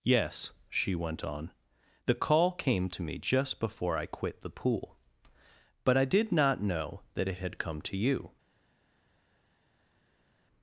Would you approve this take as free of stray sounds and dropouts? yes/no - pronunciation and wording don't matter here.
yes